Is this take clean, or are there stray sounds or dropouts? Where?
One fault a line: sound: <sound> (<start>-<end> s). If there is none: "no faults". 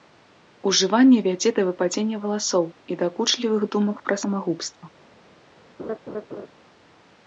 sound: laugh (5.8-6.5 s)